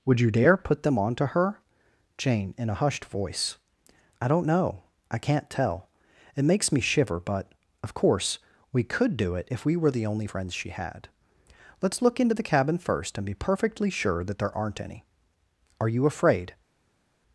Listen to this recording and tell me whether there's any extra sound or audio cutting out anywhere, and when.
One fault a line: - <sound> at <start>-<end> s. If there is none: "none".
none